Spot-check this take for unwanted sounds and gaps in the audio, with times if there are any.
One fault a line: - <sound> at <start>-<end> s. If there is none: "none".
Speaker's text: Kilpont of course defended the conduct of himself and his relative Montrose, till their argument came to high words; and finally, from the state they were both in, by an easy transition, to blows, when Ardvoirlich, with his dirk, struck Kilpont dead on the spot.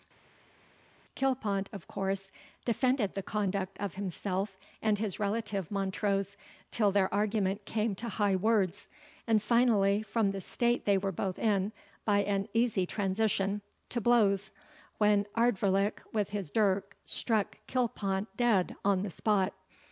none